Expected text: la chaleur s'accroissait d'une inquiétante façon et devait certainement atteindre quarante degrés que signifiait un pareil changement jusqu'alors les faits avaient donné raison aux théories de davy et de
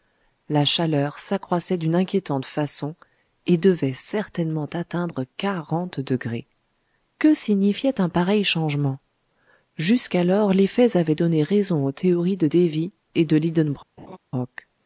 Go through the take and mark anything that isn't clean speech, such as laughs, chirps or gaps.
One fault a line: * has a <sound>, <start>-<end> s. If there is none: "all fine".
* has a laugh, 14.0-14.2 s